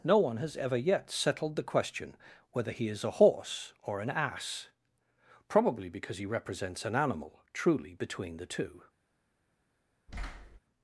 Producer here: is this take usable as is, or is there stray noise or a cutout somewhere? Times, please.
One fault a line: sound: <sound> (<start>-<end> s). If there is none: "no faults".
sound: thud (10.1-10.6 s)